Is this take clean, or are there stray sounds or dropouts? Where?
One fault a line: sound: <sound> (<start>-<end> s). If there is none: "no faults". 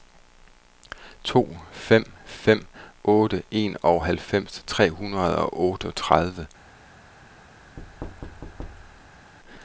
sound: thud (7.8-9.3 s)